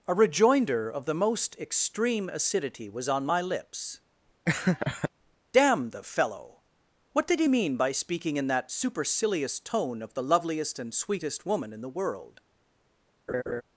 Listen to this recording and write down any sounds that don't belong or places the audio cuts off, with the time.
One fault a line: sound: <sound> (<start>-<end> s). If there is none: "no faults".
sound: laugh (4.5-5.1 s)
sound: laugh (13.3-13.6 s)